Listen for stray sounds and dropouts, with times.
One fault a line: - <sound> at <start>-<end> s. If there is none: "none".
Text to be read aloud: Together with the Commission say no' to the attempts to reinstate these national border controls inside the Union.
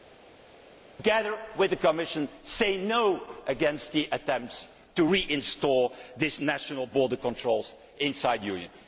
none